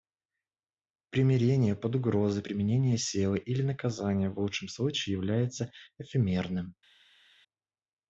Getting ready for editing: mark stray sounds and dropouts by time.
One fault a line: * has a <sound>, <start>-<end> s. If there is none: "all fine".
all fine